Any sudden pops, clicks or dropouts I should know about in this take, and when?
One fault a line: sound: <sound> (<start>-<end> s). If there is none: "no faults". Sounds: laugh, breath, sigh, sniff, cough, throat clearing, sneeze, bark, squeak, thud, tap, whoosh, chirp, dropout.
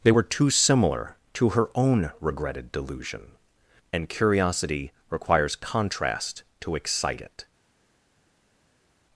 no faults